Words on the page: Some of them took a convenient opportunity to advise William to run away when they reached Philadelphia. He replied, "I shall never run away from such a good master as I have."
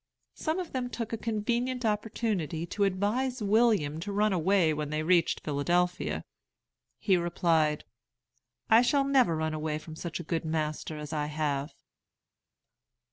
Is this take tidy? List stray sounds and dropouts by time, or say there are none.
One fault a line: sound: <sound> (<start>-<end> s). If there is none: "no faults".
no faults